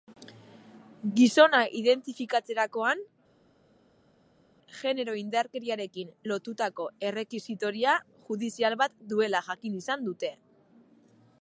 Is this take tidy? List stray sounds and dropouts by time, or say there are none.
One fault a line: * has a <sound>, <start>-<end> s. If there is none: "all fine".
all fine